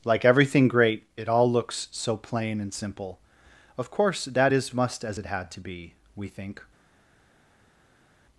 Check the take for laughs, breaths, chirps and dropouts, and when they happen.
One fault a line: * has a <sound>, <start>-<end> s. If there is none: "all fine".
all fine